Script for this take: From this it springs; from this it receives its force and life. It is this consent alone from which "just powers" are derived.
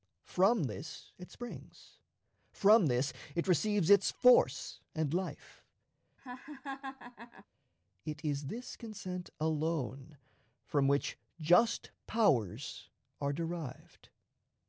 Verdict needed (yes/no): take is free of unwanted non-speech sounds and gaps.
no